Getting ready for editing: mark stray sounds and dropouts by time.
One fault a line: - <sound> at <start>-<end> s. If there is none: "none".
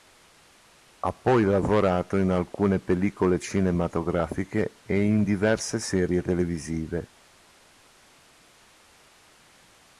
none